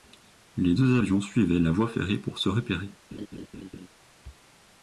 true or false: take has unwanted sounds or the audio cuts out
true